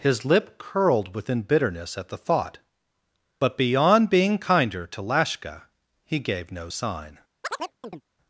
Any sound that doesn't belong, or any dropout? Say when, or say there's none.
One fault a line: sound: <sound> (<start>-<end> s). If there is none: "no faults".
sound: chirp (7.4-8.0 s)